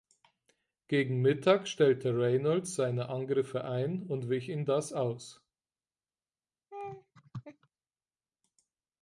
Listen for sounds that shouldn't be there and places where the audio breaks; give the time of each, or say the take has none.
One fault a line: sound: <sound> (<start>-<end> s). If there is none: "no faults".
sound: laugh (6.7-7.7 s)